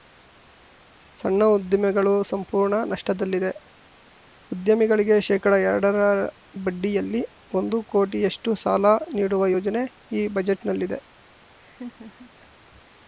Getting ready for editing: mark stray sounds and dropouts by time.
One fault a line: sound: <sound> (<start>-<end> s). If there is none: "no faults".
sound: laugh (11.6-12.3 s)